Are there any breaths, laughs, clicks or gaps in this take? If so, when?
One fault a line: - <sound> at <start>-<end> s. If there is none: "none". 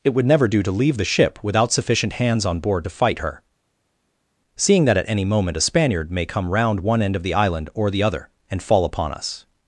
none